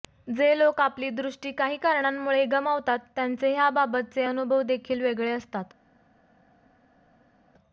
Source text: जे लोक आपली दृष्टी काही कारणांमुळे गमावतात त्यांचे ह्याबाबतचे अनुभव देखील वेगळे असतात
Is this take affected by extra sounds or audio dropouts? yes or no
no